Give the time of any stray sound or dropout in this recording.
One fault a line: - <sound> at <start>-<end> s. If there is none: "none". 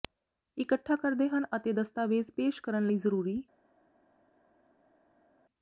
none